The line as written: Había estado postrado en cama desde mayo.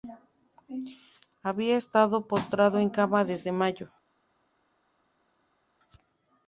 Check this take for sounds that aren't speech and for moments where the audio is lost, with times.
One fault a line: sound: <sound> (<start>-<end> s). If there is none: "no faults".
no faults